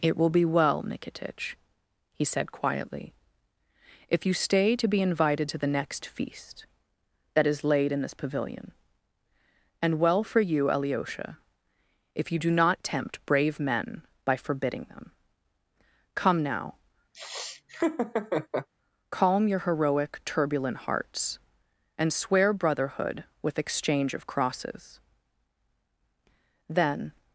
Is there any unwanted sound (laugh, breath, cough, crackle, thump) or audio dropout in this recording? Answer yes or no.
yes